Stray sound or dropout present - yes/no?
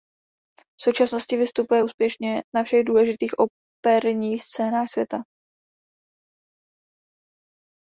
no